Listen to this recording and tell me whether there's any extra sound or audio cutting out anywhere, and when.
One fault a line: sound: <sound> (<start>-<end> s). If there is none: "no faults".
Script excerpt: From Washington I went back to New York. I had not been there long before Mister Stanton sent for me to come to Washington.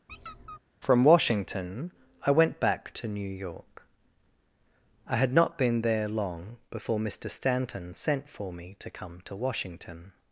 sound: squeak (0.1-0.6 s)